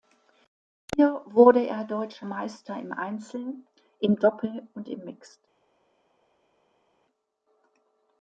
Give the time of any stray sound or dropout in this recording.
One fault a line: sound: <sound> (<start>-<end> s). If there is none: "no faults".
no faults